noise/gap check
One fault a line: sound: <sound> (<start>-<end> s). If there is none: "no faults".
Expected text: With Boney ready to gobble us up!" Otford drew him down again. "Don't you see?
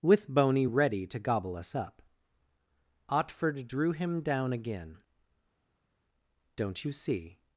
no faults